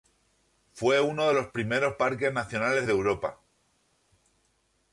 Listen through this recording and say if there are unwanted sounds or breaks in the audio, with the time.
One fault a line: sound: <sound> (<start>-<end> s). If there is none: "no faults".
no faults